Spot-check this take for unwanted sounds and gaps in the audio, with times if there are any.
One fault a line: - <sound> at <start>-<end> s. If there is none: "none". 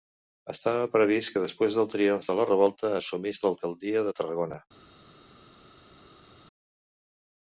none